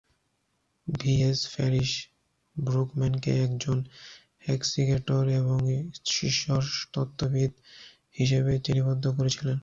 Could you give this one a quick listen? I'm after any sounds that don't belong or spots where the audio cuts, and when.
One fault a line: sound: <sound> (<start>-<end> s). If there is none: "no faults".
no faults